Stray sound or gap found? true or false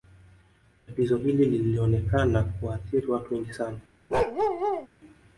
true